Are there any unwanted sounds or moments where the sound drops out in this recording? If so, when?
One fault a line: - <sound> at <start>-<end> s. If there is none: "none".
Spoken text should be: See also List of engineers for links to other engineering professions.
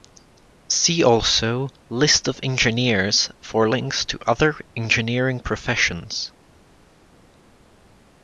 none